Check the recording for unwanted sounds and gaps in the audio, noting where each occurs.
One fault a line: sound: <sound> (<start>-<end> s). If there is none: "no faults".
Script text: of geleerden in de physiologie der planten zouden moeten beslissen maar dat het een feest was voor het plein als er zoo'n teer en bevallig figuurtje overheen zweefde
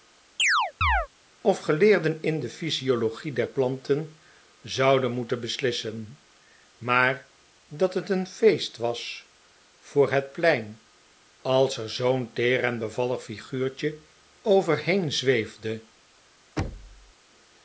sound: chirp (0.4-1.1 s)
sound: thud (16.6-17.1 s)